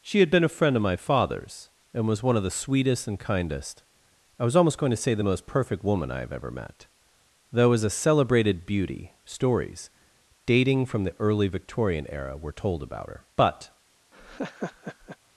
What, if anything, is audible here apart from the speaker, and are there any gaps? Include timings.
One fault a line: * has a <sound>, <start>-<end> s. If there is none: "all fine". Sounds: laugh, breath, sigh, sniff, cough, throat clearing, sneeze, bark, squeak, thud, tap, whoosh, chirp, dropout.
* has a laugh, 14.1-15.2 s